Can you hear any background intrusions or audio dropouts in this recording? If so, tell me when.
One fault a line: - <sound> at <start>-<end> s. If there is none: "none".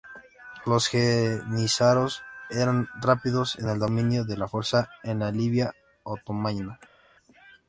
none